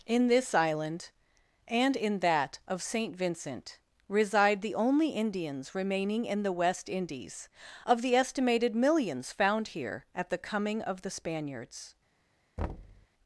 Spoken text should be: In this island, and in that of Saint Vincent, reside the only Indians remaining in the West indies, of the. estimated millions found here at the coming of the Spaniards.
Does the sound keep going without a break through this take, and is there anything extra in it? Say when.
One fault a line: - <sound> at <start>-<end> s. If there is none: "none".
- thud at 12.6-13.1 s